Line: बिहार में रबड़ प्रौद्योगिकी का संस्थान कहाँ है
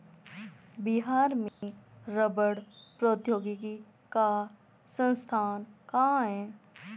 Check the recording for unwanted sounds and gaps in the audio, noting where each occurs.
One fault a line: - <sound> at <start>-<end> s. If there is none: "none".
- dropout at 1.5-1.6 s